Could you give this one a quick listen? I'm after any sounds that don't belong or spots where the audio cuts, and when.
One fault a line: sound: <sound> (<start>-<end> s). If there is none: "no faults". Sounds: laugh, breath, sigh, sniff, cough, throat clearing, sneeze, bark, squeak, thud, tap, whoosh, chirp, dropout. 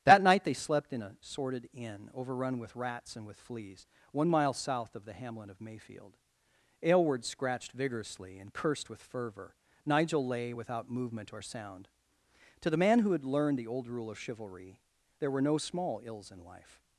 no faults